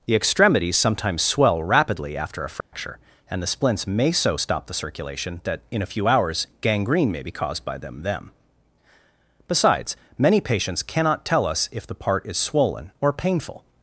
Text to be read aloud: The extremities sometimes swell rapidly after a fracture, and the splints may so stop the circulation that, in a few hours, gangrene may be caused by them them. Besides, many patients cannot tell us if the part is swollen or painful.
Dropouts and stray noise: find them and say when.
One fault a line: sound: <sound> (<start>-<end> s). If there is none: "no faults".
sound: dropout (2.6-2.7 s)